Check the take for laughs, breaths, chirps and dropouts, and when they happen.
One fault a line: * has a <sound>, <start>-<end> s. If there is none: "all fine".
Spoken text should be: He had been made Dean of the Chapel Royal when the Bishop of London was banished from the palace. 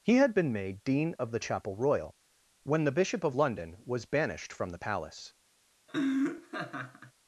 * has a laugh, 5.9-7.1 s